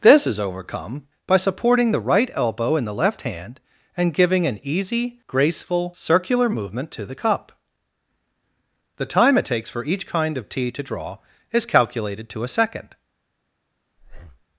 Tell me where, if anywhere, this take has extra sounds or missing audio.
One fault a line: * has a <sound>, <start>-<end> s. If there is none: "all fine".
* has a breath, 14.0-14.4 s